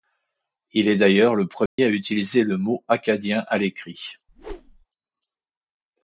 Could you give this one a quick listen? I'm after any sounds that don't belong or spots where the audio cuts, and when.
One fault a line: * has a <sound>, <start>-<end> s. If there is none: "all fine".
* has a dropout, 1.7-1.8 s
* has a whoosh, 4.3-4.9 s